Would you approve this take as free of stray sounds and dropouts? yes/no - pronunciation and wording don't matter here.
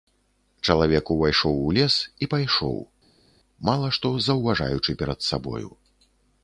yes